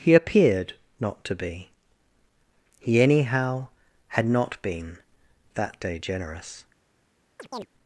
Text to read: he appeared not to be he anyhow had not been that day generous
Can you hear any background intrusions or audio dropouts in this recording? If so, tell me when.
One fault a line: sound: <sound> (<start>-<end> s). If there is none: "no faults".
sound: chirp (7.4-7.7 s)